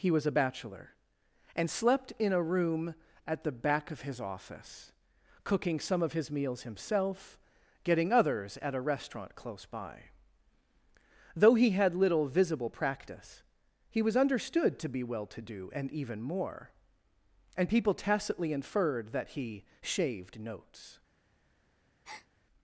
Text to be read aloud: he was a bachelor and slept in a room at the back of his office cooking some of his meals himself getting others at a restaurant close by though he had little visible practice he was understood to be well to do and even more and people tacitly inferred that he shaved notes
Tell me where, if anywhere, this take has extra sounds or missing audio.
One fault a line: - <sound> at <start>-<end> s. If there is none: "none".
- breath at 22.0-22.3 s